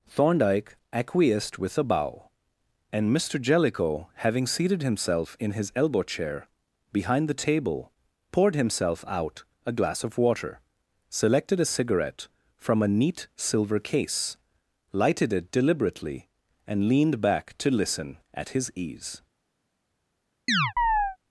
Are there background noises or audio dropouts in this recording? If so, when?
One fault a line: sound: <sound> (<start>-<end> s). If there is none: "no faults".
sound: chirp (20.5-21.2 s)